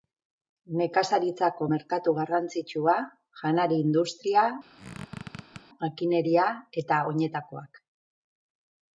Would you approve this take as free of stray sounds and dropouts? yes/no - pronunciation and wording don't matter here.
no